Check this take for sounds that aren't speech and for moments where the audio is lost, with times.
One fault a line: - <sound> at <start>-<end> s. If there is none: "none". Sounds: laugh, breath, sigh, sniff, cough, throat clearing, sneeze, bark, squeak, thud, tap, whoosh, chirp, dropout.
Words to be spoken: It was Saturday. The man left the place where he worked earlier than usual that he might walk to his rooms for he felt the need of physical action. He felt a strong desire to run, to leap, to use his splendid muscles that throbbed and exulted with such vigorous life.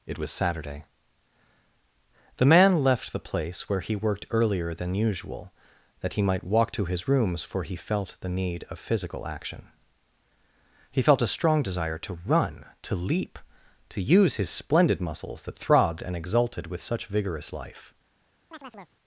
- chirp at 18.5-19.0 s